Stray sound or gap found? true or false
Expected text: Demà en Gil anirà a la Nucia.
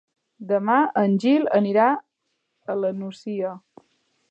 false